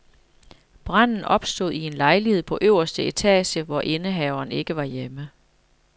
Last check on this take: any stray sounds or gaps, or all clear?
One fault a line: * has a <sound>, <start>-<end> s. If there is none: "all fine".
all fine